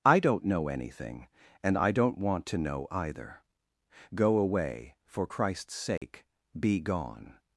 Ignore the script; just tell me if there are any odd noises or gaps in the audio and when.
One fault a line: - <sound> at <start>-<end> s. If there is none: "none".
- dropout at 6.0-6.0 s